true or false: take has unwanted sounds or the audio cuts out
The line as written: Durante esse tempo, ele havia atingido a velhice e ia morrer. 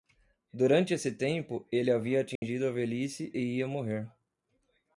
true